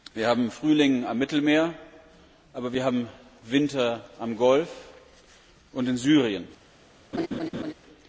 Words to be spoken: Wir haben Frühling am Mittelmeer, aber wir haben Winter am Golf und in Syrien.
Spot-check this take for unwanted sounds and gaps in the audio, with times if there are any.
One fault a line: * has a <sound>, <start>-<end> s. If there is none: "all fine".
* has a laugh, 7.1-7.7 s